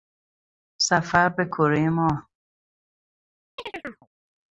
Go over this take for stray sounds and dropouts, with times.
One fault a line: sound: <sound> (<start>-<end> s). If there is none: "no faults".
sound: chirp (3.6-4.1 s)